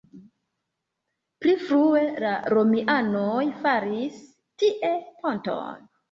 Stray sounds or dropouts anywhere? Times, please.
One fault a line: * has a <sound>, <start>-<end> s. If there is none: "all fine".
all fine